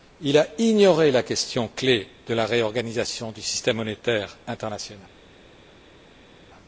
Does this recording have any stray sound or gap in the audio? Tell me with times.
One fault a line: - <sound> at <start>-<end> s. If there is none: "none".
none